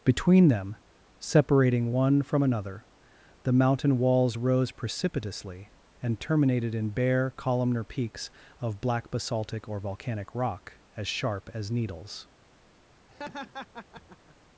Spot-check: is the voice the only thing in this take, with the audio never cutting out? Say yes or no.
no